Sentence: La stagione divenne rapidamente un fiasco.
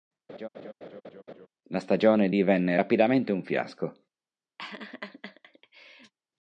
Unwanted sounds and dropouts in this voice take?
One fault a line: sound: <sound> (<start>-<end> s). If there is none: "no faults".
sound: laugh (0.3-1.5 s)
sound: laugh (4.6-6.1 s)